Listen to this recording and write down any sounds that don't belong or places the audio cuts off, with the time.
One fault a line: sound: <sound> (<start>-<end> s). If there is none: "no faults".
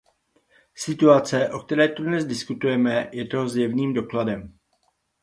no faults